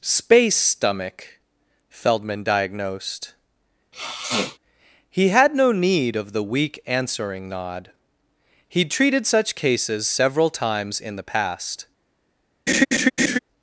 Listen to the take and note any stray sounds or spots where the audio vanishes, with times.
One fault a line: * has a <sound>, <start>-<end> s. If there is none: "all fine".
* has a sniff, 3.9-4.6 s
* has a laugh, 12.7-13.4 s